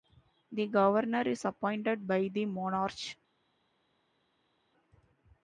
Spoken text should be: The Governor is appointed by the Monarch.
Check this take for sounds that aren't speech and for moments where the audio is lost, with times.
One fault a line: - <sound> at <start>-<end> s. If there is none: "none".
none